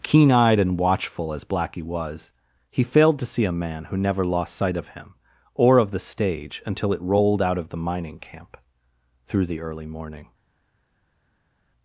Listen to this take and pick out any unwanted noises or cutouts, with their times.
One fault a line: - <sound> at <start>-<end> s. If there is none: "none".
none